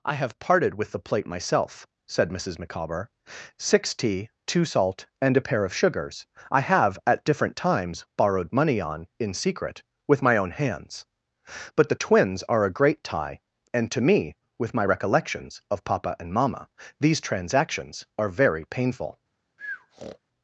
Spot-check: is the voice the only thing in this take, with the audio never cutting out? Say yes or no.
no